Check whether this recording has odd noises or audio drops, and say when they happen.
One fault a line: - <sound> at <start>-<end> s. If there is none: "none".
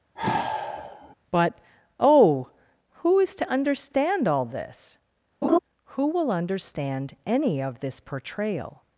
- sigh at 0.2-1.2 s
- laugh at 5.4-5.6 s